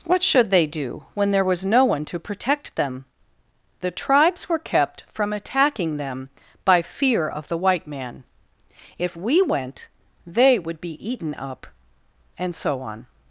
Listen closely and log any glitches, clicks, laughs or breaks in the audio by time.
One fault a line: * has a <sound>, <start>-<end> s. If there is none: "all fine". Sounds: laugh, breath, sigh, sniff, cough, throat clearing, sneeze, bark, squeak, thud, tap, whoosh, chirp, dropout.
all fine